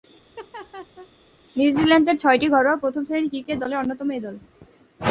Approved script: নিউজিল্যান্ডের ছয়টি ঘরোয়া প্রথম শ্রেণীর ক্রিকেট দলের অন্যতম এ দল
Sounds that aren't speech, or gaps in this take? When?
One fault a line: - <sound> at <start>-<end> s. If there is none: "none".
- laugh at 0.4-1.1 s